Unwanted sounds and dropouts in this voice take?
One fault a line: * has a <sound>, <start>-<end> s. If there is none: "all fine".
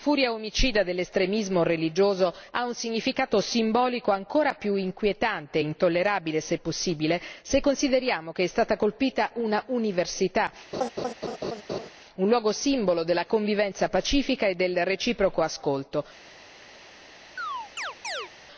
* has a laugh, 10.7-11.9 s
* has a chirp, 17.4-18.3 s